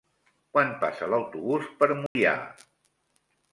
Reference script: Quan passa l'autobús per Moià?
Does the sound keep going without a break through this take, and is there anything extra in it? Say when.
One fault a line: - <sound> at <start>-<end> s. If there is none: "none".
- dropout at 2.1-2.2 s